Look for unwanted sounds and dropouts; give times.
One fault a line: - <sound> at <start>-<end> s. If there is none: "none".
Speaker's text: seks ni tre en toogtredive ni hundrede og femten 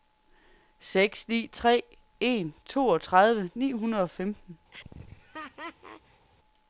- laugh at 4.7-6.3 s